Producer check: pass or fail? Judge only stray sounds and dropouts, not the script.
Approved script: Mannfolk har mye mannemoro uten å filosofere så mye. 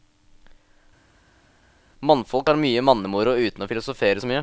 pass